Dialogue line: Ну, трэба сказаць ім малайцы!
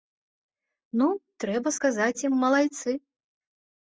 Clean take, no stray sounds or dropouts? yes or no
yes